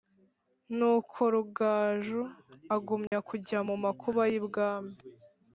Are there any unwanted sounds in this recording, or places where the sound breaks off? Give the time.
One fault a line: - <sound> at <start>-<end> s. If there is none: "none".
- dropout at 3.1-3.1 s